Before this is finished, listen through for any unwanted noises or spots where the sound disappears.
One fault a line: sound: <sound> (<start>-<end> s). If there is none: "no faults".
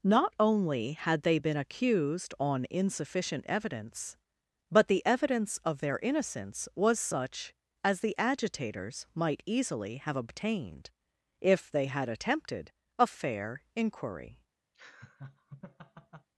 sound: laugh (14.7-16.3 s)